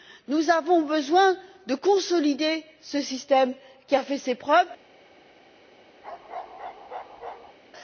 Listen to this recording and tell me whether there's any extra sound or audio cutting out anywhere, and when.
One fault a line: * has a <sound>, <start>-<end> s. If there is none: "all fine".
* has a bark, 6.0-7.6 s